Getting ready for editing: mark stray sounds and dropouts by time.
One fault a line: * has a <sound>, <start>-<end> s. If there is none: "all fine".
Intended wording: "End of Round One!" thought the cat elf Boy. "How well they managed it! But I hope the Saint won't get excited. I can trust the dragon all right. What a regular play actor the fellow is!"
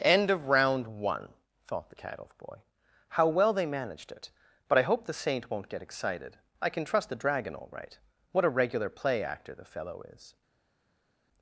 all fine